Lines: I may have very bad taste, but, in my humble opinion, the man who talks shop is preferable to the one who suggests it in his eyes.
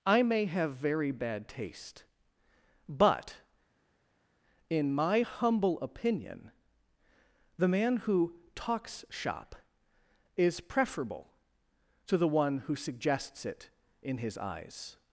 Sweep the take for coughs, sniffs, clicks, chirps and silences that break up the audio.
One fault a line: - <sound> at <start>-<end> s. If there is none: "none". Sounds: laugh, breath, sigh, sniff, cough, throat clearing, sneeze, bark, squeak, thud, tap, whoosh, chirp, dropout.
none